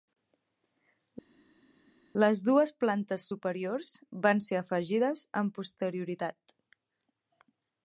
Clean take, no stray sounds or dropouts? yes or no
yes